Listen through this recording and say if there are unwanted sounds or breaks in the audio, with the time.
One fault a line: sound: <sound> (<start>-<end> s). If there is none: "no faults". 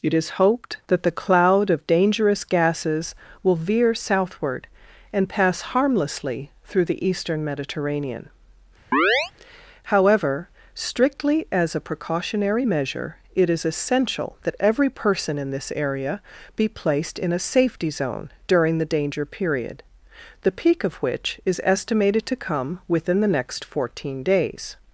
sound: chirp (8.9-9.3 s)